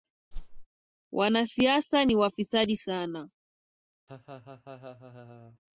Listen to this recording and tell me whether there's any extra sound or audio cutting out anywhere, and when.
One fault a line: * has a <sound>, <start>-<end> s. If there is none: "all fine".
* has a whoosh, 0.3-0.7 s
* has a laugh, 4.1-5.6 s